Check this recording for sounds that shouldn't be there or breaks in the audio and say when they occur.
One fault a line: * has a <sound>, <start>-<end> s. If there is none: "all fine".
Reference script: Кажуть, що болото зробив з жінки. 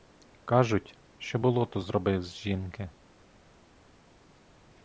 all fine